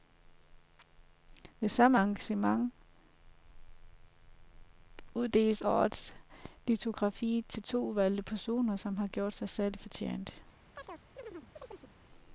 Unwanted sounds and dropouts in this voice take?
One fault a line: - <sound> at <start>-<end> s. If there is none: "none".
- chirp at 10.8-11.9 s